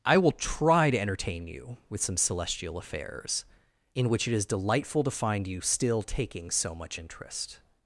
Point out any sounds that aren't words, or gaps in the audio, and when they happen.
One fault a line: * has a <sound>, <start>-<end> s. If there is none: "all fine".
all fine